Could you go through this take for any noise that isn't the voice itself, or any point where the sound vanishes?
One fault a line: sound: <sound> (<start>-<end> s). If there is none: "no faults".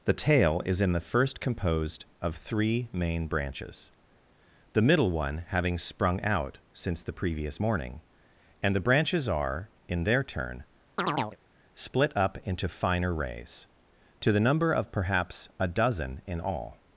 sound: chirp (11.0-11.4 s)